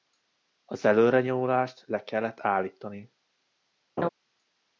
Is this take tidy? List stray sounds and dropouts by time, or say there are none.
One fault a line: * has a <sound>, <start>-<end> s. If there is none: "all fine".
* has a laugh, 4.0-4.1 s